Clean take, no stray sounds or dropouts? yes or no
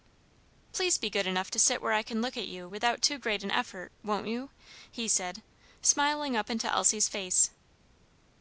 yes